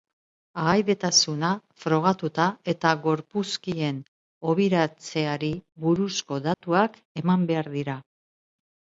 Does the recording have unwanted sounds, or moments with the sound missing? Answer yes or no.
yes